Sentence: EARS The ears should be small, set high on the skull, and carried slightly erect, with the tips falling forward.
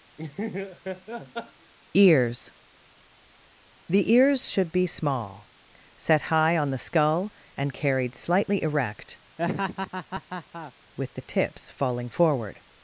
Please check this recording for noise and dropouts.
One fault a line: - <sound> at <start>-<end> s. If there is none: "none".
- laugh at 0.2-1.7 s
- laugh at 9.4-10.7 s